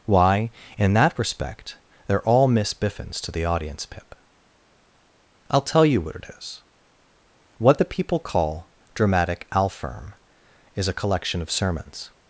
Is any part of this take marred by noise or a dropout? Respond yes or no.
no